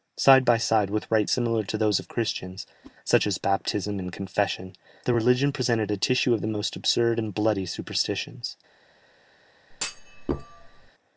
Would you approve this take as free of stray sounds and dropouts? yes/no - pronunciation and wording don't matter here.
no